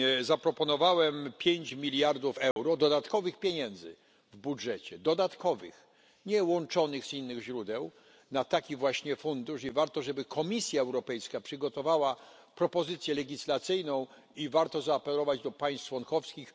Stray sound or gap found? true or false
true